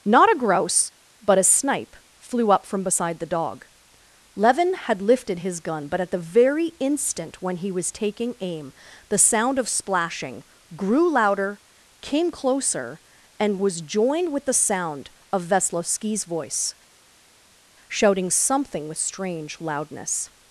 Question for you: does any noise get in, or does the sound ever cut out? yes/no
no